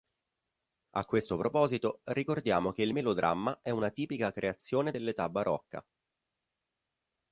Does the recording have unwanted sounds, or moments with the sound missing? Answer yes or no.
no